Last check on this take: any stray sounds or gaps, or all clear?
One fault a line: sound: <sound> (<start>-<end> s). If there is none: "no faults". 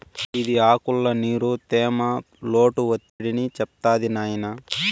sound: dropout (3.1-3.2 s)